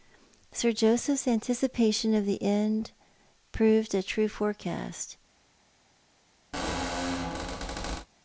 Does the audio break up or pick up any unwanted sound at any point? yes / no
yes